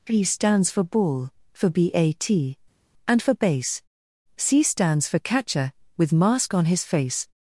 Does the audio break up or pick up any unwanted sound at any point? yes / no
no